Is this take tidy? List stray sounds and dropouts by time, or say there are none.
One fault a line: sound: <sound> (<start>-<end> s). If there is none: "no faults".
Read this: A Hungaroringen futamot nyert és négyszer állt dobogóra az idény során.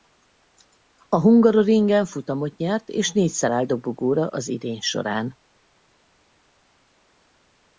no faults